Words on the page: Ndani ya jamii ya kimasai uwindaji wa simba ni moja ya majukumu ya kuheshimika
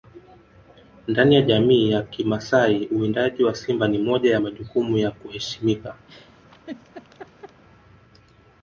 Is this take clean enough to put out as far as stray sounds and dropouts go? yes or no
no